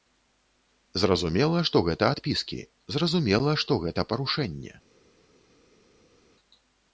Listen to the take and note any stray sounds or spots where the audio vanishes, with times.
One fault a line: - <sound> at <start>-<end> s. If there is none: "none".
none